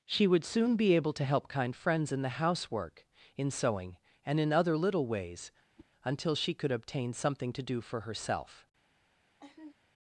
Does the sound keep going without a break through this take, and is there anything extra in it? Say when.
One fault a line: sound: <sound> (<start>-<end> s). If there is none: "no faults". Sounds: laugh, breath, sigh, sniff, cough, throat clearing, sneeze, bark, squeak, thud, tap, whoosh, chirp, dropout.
sound: whoosh (5.8-5.9 s)
sound: laugh (9.4-9.7 s)